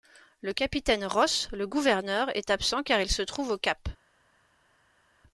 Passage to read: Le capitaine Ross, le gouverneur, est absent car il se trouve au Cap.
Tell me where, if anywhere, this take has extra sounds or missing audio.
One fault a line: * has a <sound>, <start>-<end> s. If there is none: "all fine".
all fine